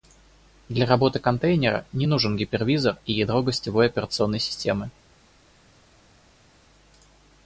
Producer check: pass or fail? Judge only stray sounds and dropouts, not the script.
pass